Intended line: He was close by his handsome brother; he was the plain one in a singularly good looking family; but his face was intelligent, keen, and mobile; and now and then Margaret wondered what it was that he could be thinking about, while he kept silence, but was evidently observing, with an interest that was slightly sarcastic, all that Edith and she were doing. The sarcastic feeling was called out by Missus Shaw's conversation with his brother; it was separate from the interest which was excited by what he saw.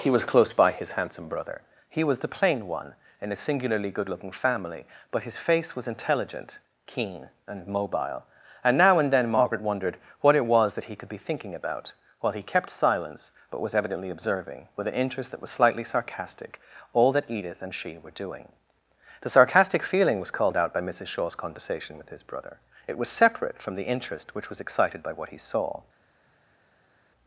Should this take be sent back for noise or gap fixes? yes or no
no